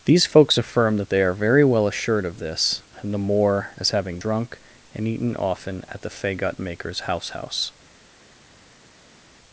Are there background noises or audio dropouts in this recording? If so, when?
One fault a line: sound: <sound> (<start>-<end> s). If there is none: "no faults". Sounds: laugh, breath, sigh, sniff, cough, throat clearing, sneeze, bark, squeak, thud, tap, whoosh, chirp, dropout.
no faults